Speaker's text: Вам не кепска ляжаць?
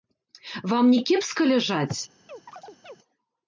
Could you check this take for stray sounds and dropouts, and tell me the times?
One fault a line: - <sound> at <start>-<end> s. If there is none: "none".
- chirp at 2.3-3.0 s